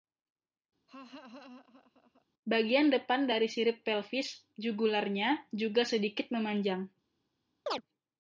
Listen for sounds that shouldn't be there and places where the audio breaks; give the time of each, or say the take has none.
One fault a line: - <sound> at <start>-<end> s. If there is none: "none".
- laugh at 0.9-2.3 s
- chirp at 7.7-7.8 s